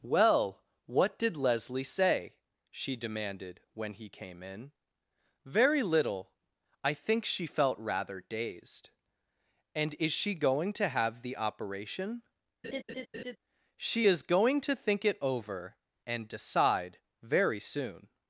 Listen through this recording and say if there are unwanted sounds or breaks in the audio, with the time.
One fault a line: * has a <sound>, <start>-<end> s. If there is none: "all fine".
* has a laugh, 12.6-13.4 s